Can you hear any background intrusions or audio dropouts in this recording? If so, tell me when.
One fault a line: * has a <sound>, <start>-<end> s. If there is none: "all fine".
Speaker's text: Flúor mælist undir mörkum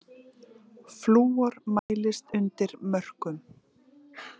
* has a dropout, 1.8-1.9 s